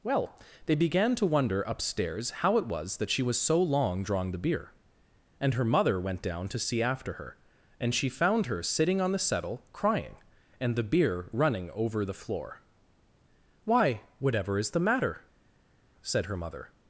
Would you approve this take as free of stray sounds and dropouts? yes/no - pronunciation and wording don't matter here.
yes